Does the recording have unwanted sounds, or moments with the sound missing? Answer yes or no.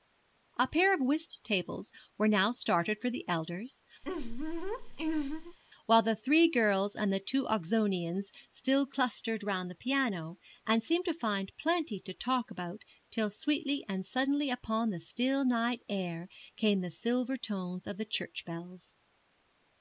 yes